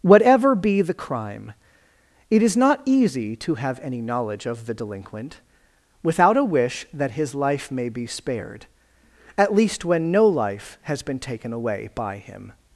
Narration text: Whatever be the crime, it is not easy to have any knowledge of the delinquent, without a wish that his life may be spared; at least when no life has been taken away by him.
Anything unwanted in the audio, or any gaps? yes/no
no